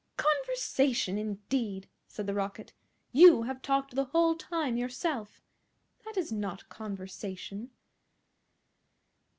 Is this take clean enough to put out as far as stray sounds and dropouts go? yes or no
yes